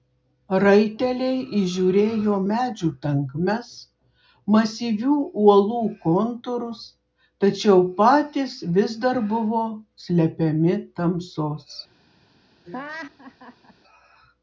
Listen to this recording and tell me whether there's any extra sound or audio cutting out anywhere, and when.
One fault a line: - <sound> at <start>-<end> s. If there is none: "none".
- laugh at 12.6-13.7 s